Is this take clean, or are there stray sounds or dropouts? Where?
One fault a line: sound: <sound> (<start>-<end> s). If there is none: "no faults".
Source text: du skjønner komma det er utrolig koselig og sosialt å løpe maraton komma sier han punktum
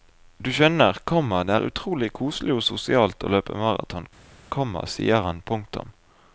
no faults